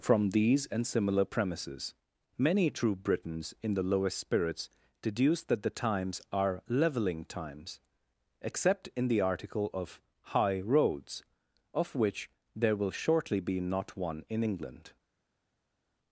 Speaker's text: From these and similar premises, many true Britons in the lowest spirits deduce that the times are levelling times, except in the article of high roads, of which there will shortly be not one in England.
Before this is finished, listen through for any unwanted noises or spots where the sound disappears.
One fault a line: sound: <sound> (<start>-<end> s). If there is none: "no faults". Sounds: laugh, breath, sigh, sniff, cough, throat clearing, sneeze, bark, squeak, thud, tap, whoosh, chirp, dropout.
no faults